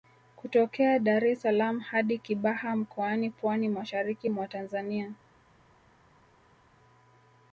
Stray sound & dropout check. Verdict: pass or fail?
pass